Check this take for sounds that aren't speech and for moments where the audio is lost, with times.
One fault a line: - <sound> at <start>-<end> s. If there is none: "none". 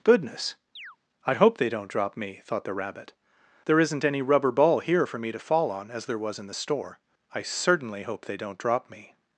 - chirp at 0.8-1.0 s